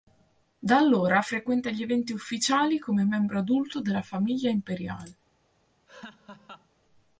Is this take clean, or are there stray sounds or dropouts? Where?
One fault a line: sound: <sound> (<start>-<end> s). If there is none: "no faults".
sound: laugh (5.9-6.7 s)